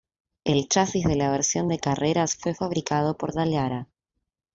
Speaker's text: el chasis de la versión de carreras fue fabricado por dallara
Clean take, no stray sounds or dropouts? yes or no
yes